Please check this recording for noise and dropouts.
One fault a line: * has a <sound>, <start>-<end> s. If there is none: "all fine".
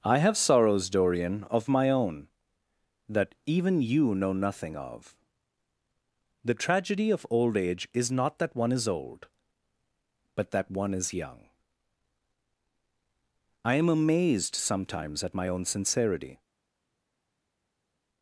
all fine